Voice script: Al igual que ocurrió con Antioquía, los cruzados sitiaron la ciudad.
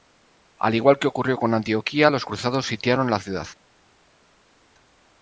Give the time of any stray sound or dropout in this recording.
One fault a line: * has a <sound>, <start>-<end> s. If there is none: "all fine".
all fine